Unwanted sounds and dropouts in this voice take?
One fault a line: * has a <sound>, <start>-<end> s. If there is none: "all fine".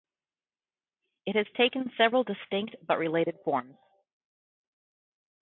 all fine